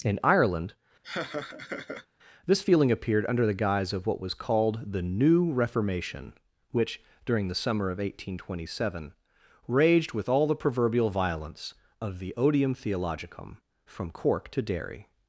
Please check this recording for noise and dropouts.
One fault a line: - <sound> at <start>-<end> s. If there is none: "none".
- laugh at 1.0-2.1 s